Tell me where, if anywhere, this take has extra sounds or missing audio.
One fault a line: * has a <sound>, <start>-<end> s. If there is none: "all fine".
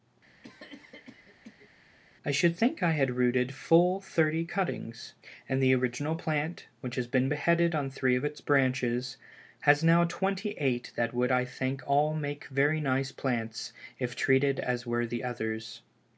* has a cough, 0.4-1.7 s